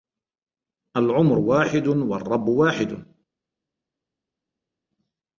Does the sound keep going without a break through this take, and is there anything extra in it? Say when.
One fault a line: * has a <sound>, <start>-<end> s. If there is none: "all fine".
all fine